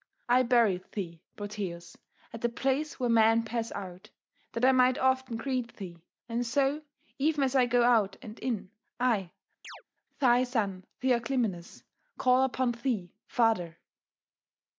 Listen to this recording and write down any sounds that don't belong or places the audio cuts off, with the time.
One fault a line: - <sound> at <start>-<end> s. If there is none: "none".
- chirp at 9.6-9.8 s